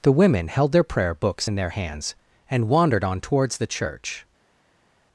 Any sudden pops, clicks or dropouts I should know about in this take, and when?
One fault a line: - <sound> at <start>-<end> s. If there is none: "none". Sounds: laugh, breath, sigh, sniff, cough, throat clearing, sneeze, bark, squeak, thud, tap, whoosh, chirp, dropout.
none